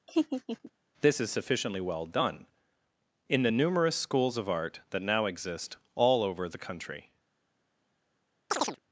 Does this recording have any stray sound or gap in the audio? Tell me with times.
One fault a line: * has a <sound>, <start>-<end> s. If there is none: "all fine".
* has a laugh, 0.1-0.7 s
* has a chirp, 8.5-8.8 s